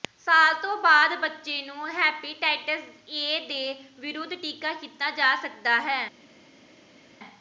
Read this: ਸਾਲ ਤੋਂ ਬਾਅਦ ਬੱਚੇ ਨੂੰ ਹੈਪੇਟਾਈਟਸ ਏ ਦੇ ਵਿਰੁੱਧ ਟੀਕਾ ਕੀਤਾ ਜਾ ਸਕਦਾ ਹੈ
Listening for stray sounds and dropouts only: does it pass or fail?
pass